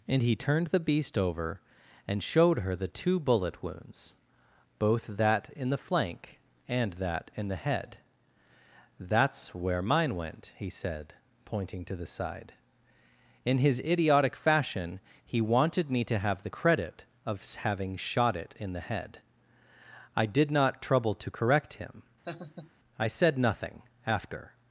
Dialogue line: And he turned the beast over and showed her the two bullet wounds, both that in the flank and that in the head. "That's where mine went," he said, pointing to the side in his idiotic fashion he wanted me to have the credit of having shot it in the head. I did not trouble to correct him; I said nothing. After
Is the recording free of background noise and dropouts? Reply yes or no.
no